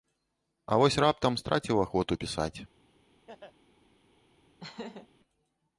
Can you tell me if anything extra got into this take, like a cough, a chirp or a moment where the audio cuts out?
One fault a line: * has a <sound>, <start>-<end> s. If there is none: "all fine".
* has a laugh, 3.3-3.6 s
* has a laugh, 4.6-5.1 s